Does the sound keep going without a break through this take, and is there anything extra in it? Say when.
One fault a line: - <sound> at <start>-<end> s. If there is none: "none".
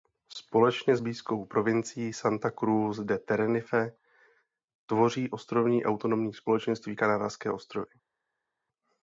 none